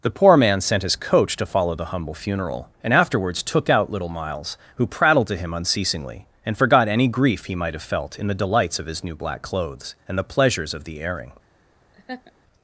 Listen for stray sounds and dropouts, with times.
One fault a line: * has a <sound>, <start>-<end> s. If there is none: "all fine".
* has a laugh, 11.9-12.3 s